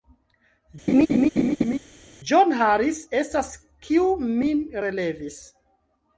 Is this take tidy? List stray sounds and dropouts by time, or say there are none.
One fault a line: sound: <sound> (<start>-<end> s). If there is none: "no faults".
sound: laugh (0.9-1.8 s)